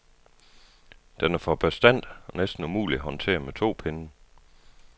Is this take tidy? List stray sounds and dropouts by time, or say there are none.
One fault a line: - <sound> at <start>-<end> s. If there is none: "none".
none